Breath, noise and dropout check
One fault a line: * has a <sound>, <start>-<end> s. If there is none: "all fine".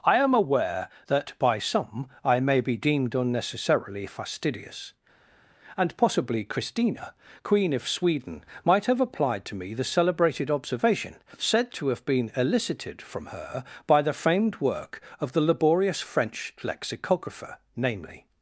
all fine